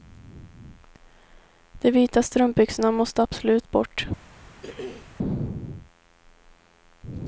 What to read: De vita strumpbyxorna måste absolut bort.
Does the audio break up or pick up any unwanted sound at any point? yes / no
yes